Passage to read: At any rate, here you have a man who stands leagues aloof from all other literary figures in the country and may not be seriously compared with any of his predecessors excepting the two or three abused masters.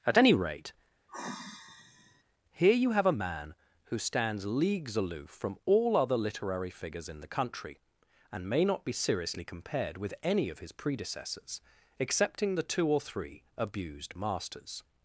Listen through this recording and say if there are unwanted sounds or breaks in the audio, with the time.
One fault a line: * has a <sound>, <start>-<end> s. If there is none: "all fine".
* has a sigh, 1.1-2.2 s